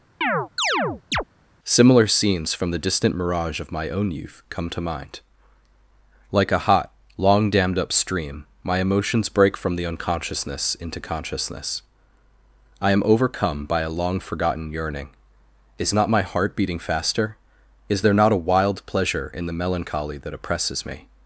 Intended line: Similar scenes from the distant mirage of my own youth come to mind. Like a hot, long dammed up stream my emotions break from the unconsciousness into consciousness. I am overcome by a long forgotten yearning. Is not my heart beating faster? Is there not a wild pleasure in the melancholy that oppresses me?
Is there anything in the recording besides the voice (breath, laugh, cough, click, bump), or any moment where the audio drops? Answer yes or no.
yes